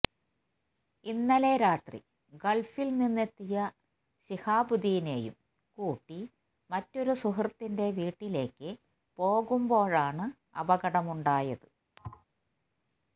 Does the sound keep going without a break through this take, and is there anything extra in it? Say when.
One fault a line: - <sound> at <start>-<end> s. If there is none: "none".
- thud at 12.0-12.2 s